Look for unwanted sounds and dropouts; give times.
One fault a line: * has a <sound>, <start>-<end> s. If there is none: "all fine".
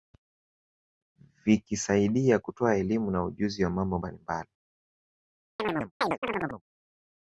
* has a chirp, 5.6-6.6 s